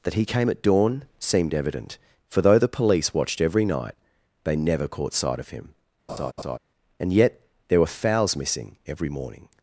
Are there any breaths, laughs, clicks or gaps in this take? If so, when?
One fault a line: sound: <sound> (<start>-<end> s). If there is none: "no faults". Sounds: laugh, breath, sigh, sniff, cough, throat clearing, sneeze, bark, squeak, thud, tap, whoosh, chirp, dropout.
sound: laugh (6.1-6.6 s)